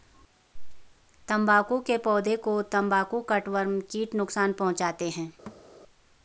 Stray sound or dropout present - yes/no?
yes